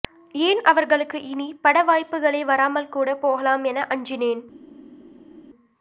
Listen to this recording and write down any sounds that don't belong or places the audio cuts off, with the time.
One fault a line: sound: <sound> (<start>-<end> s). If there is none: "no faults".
no faults